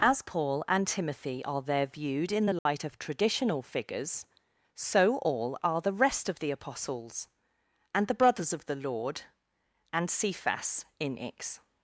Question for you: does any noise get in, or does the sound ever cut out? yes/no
yes